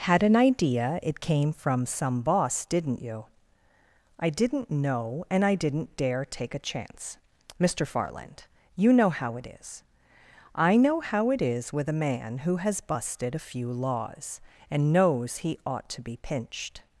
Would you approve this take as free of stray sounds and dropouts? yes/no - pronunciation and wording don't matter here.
yes